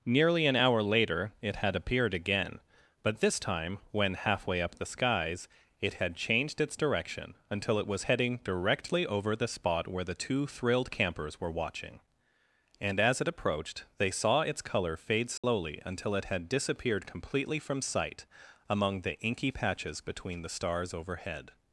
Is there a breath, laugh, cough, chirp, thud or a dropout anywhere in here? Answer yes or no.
yes